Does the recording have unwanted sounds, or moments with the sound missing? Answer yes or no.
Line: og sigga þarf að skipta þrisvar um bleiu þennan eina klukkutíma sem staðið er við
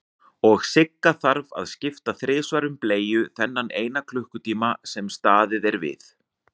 no